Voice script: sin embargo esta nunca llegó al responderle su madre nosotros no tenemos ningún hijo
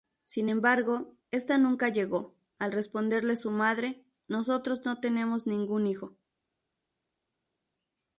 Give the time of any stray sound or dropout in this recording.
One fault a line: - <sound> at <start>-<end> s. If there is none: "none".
none